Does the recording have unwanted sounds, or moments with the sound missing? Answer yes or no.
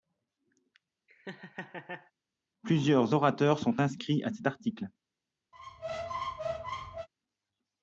yes